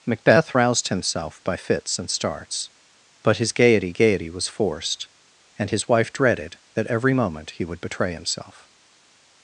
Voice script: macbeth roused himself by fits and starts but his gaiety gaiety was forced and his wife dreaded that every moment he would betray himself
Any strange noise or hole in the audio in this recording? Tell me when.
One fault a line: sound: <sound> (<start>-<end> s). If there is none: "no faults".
no faults